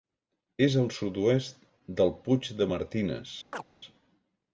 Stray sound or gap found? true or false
true